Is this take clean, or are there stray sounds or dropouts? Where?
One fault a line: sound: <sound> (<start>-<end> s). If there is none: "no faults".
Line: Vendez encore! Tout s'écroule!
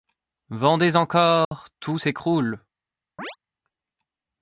sound: dropout (1.4-1.5 s)
sound: chirp (3.2-3.4 s)